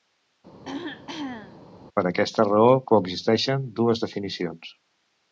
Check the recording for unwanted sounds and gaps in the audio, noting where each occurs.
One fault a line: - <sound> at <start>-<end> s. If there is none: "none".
- throat clearing at 0.6-1.7 s